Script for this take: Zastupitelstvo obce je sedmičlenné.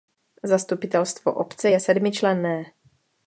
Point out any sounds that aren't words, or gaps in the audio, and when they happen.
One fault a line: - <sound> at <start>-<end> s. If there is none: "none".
none